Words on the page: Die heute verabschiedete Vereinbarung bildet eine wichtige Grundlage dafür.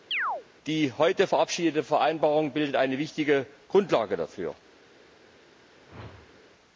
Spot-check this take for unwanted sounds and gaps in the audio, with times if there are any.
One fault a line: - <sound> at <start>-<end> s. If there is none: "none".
- chirp at 0.1-0.4 s
- whoosh at 5.8-6.4 s